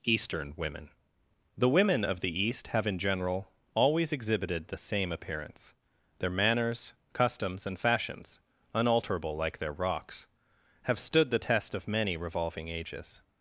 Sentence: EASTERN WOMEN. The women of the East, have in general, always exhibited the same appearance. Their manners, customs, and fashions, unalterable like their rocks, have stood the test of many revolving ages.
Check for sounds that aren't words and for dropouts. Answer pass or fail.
pass